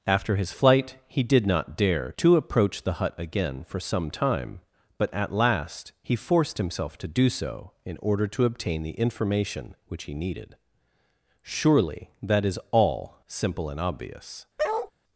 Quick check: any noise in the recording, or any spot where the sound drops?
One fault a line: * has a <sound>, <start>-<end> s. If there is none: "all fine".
* has a bark, 14.6-14.9 s